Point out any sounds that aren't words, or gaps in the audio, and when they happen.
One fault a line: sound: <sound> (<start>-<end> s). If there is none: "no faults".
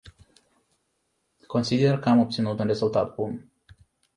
no faults